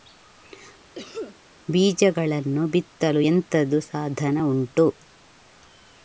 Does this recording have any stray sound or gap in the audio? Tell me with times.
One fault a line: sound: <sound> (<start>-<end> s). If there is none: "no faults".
sound: cough (0.9-1.4 s)